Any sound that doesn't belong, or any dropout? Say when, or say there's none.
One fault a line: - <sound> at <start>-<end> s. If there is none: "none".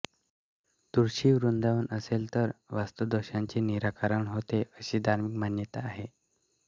none